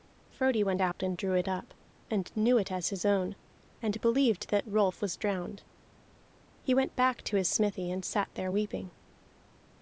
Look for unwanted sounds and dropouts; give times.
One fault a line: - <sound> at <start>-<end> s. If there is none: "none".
- dropout at 0.9-1.0 s